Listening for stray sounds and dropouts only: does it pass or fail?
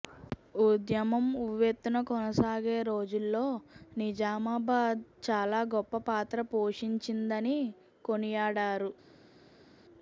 pass